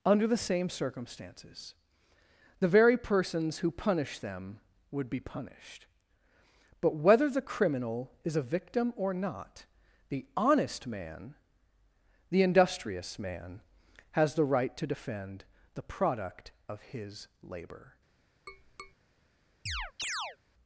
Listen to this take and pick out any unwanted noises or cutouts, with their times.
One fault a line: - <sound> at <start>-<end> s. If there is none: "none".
- tap at 18.5-19.0 s
- chirp at 19.7-20.4 s